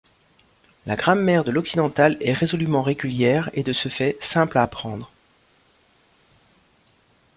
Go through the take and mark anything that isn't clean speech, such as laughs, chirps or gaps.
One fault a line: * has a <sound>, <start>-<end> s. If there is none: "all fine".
all fine